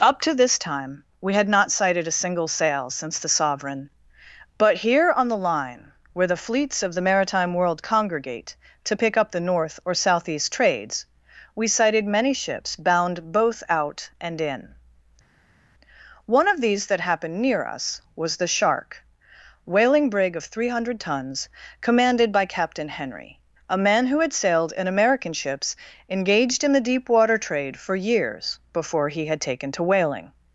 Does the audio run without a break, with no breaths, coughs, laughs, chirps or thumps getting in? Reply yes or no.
yes